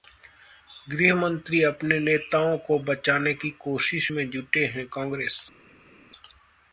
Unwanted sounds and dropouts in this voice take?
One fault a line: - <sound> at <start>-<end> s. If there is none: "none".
none